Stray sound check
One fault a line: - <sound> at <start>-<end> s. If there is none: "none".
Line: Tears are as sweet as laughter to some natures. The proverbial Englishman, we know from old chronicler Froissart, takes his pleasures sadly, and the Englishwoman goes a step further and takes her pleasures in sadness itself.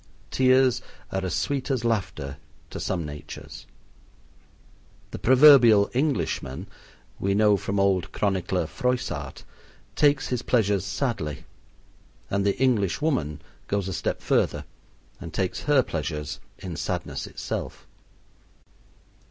none